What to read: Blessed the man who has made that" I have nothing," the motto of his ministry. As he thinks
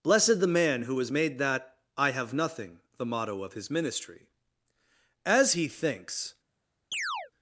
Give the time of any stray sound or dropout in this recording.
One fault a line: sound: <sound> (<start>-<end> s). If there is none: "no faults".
sound: chirp (6.9-7.3 s)